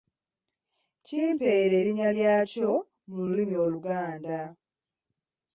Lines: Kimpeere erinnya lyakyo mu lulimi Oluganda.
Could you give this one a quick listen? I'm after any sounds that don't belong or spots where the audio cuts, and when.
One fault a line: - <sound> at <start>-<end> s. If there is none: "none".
none